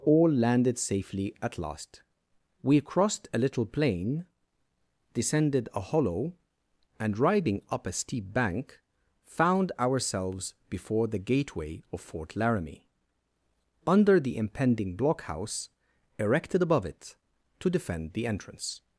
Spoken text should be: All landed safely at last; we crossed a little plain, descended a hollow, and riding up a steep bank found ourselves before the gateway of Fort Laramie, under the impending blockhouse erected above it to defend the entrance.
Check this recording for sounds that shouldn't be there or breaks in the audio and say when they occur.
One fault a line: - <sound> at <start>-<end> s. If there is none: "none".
none